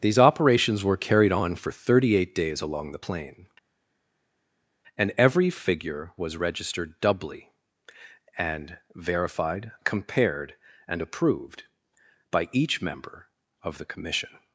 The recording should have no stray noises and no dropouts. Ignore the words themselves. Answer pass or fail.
pass